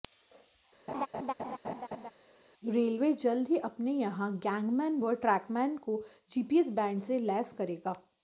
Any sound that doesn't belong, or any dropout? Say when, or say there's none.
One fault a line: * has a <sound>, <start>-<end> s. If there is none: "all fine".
* has a laugh, 0.9-2.1 s